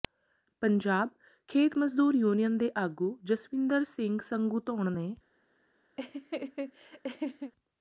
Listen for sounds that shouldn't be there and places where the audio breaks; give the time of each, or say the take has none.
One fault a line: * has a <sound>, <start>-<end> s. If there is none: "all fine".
* has a laugh, 6.0-7.5 s